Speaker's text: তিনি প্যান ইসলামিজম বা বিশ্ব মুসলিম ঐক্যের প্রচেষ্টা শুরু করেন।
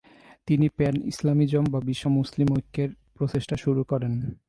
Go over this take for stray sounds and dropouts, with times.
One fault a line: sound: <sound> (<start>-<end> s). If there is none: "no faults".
no faults